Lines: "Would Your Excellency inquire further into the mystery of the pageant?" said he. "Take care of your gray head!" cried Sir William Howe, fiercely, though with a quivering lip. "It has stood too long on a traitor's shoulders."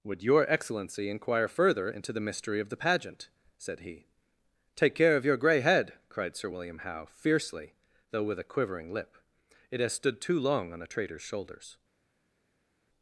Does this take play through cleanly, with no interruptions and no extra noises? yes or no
yes